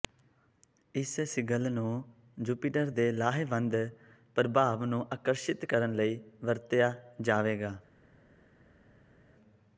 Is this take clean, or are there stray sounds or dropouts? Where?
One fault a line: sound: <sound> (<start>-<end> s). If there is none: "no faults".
no faults